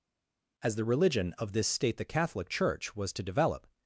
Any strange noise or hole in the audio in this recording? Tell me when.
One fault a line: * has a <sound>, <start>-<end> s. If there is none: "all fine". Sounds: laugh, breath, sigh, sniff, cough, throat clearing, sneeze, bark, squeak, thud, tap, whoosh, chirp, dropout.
all fine